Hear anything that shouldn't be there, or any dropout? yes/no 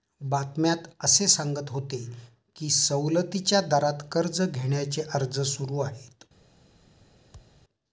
yes